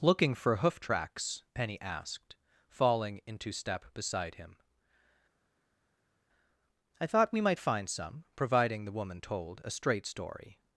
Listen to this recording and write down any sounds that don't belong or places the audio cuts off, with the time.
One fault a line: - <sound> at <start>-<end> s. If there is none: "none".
none